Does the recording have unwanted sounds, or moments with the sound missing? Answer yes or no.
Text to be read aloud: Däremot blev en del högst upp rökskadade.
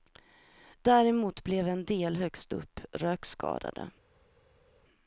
no